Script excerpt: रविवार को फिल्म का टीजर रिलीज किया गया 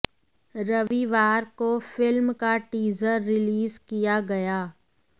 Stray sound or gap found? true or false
true